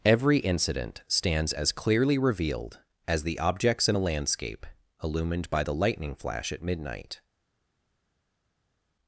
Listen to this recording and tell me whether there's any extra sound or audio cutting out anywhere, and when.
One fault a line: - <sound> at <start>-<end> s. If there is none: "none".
none